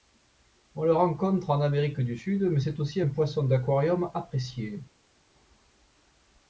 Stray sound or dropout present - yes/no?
no